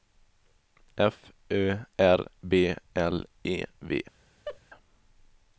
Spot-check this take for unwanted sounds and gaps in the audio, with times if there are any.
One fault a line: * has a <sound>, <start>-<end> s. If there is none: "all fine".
* has a laugh, 4.5-4.6 s